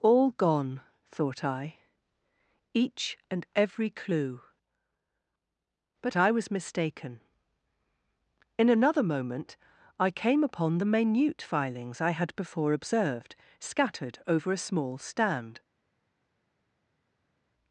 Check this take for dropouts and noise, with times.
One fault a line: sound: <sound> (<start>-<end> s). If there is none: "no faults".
no faults